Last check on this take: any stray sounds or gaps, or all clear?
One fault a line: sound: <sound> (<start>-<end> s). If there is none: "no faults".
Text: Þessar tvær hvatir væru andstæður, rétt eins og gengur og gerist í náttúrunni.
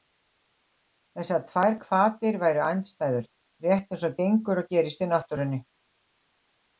no faults